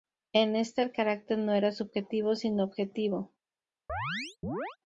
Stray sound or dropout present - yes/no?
yes